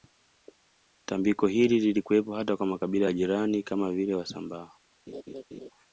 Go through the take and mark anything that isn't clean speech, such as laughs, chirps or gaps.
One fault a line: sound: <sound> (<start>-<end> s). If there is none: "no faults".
sound: laugh (5.1-5.7 s)